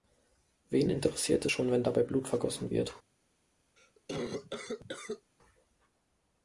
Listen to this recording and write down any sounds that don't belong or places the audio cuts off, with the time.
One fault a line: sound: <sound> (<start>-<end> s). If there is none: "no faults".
sound: cough (3.8-5.3 s)